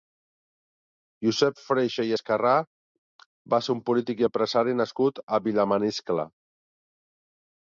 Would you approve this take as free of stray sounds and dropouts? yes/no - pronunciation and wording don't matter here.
yes